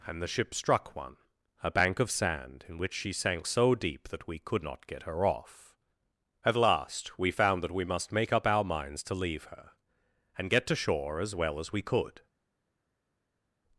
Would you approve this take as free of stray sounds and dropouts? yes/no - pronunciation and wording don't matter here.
yes